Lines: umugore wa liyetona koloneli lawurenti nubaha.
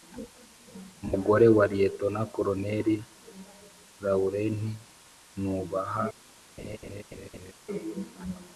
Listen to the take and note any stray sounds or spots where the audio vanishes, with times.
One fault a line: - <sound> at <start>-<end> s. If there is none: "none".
- laugh at 6.6-7.5 s